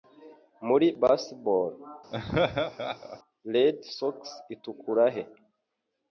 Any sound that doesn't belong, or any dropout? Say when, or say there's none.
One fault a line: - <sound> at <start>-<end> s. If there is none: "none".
- laugh at 2.1-3.2 s